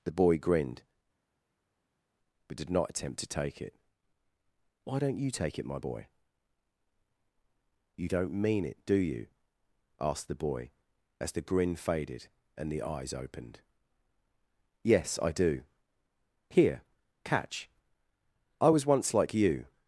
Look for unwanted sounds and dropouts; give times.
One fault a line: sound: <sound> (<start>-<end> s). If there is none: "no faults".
no faults